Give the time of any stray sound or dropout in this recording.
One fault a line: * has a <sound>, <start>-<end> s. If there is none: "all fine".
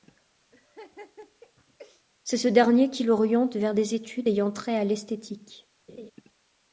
* has a laugh, 0.5-2.1 s
* has a laugh, 5.9-6.1 s